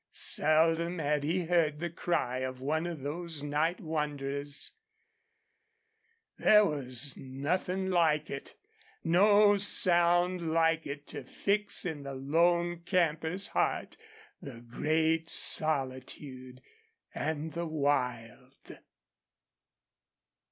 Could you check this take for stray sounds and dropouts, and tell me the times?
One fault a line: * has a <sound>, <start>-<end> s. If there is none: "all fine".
all fine